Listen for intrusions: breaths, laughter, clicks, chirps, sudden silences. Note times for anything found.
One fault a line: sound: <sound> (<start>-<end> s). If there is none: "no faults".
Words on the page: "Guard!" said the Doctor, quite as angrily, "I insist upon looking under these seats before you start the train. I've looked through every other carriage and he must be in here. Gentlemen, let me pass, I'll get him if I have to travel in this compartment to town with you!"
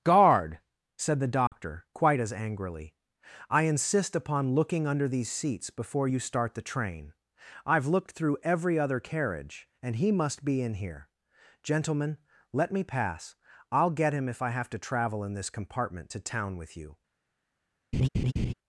sound: dropout (1.5-1.5 s)
sound: laugh (17.9-18.5 s)